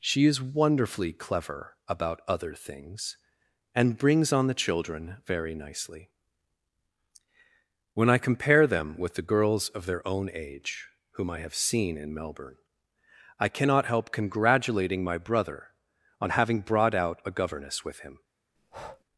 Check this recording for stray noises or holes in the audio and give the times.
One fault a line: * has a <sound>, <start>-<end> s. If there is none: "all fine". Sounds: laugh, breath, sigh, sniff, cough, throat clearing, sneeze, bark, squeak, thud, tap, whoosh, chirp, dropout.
* has a breath, 18.6-19.0 s